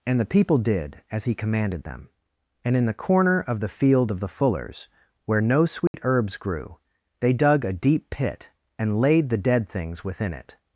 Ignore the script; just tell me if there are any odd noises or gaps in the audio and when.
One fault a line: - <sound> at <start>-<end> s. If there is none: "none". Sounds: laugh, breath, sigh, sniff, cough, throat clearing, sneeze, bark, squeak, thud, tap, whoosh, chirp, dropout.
- dropout at 5.9-5.9 s